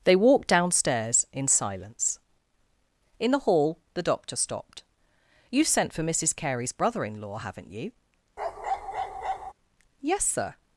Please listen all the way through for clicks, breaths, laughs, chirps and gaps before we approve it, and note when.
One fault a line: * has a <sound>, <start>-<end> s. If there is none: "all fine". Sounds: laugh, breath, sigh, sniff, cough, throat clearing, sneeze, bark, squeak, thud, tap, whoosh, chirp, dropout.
* has a bark, 8.4-9.5 s